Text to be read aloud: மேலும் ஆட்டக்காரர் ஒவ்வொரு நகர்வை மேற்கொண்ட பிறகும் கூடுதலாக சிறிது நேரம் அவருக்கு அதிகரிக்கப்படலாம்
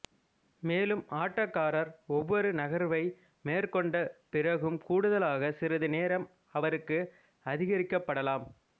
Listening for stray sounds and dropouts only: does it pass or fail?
pass